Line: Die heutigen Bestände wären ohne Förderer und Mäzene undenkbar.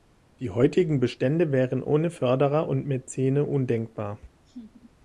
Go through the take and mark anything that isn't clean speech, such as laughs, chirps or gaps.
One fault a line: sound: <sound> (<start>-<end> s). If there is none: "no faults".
sound: laugh (4.4-4.9 s)